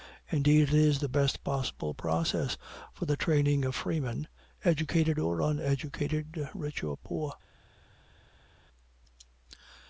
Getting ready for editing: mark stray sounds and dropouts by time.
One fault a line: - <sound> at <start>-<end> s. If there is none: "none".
none